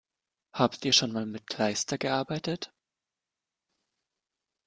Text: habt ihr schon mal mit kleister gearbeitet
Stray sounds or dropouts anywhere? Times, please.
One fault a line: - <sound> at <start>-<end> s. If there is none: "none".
none